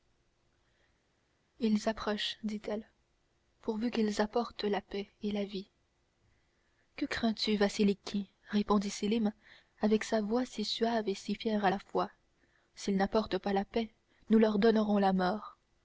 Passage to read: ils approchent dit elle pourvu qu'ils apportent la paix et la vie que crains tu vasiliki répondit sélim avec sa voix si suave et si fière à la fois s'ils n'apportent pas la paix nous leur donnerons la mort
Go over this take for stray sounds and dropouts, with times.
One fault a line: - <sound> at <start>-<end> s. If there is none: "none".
none